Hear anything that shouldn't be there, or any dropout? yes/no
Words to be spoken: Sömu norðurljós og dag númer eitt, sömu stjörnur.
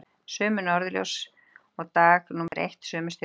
yes